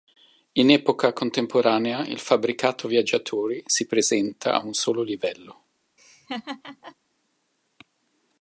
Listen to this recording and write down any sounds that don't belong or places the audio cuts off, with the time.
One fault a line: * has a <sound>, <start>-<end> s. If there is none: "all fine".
* has a laugh, 6.0-7.0 s